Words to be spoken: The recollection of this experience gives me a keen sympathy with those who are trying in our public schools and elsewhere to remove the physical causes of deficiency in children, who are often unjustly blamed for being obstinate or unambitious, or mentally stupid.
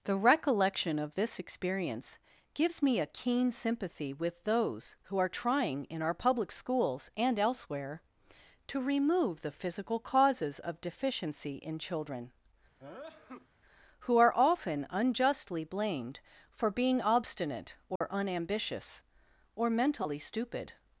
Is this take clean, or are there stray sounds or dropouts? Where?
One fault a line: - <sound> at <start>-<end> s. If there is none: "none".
- sneeze at 12.8-13.5 s
- dropout at 18.0-18.0 s